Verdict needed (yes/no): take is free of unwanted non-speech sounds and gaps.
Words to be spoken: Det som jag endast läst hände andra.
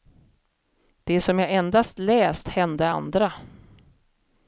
yes